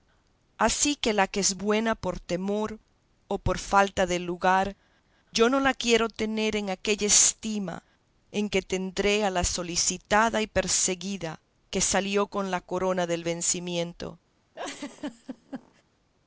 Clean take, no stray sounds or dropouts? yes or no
no